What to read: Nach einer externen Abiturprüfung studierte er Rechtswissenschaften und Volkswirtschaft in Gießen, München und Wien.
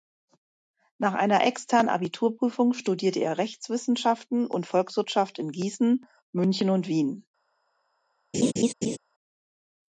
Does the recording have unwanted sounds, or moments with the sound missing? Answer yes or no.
yes